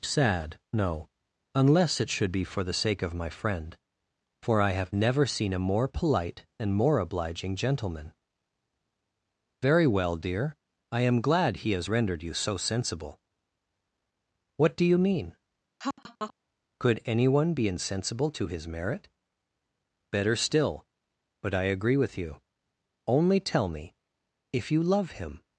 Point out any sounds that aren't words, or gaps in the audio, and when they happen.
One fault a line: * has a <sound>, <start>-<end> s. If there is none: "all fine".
* has a laugh, 15.8-16.3 s